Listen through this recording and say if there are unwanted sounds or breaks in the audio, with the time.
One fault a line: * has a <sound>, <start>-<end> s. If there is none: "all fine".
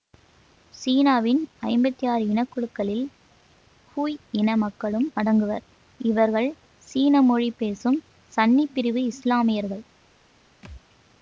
* has a thud, 10.6-10.8 s